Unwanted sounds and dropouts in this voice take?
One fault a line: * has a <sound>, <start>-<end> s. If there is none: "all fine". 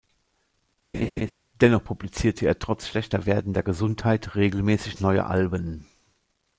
* has a laugh, 0.9-1.3 s